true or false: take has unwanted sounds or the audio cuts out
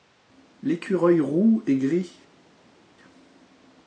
false